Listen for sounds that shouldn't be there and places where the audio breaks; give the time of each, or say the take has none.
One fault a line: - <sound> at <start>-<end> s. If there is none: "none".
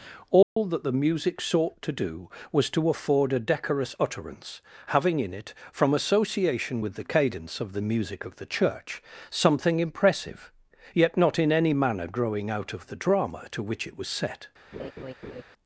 - dropout at 0.4-0.6 s
- laugh at 14.7-15.4 s